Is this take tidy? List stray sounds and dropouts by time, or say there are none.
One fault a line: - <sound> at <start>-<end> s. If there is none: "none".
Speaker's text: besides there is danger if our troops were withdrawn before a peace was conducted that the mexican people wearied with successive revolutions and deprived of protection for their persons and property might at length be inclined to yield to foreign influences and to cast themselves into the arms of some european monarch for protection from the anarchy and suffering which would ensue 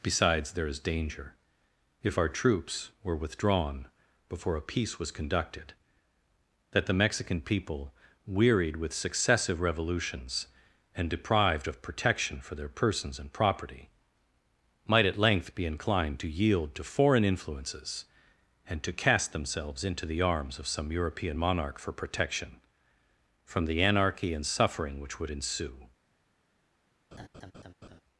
- laugh at 27.1-28.0 s